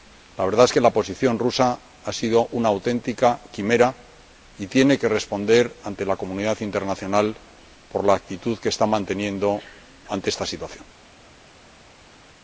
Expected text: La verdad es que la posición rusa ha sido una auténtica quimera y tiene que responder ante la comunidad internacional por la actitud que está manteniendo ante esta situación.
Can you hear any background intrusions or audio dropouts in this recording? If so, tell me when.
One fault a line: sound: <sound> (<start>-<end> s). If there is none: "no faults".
no faults